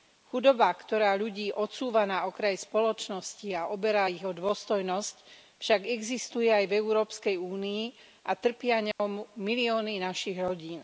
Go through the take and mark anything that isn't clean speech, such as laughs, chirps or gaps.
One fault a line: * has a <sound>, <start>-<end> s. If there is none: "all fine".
* has a dropout, 8.9-9.0 s